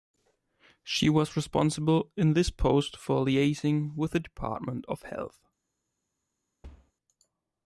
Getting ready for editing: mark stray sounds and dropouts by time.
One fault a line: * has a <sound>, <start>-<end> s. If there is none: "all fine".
* has a thud, 6.6-6.9 s